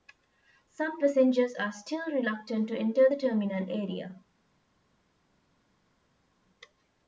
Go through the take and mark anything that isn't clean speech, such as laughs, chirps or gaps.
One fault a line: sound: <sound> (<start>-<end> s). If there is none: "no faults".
no faults